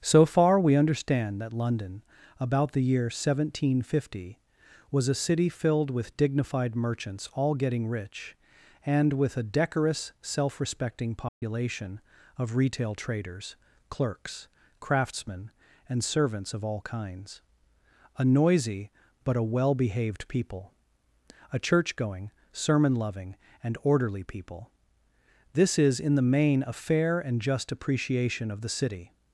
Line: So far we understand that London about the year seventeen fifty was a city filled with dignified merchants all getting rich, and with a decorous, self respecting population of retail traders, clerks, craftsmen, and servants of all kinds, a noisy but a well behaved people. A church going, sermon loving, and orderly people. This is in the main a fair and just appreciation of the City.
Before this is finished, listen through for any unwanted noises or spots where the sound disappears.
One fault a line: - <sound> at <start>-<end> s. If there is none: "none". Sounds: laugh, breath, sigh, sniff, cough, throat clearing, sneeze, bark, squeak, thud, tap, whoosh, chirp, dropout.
- dropout at 11.3-11.4 s